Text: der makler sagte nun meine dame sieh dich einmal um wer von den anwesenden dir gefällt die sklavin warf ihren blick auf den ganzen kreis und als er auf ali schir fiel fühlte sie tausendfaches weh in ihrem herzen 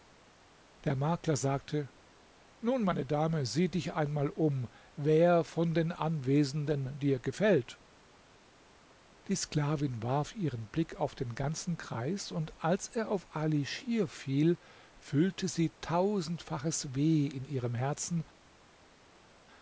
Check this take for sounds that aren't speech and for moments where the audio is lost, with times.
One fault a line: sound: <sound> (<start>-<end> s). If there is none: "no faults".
no faults